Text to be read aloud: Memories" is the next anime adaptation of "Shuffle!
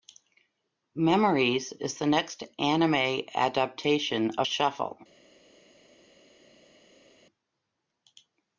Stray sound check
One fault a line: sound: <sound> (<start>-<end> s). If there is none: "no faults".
no faults